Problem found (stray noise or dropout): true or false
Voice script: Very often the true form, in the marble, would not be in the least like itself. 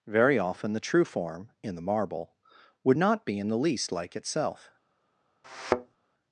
true